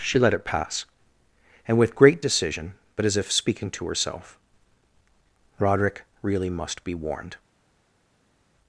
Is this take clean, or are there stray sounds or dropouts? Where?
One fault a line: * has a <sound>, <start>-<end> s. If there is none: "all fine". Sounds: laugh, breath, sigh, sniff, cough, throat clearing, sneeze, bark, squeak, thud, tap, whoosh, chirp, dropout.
all fine